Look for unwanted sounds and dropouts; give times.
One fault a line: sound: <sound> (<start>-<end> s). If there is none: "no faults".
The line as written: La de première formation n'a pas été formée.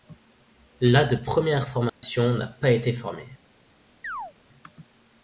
sound: dropout (1.9-2.0 s)
sound: chirp (4.0-4.3 s)